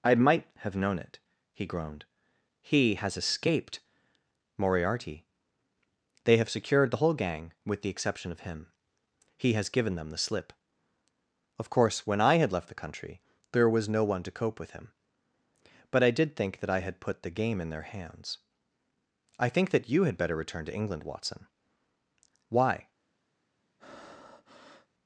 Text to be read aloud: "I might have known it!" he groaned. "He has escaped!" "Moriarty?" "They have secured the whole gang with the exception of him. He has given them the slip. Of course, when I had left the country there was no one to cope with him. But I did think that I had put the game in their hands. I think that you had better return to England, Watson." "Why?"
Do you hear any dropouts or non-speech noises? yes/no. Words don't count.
yes